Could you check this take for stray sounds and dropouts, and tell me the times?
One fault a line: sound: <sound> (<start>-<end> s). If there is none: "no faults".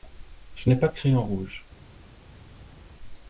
no faults